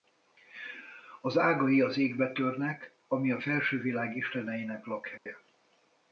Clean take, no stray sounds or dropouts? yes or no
no